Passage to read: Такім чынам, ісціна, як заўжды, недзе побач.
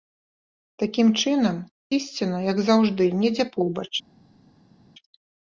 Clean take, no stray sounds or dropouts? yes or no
yes